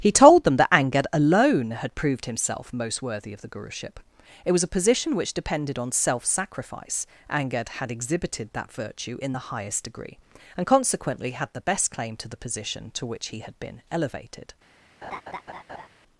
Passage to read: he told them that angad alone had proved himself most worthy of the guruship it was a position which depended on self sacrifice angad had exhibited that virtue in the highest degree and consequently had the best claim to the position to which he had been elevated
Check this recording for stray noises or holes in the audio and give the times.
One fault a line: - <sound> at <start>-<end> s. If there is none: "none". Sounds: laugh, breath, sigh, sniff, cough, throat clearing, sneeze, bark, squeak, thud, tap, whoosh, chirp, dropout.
- laugh at 15.0-15.9 s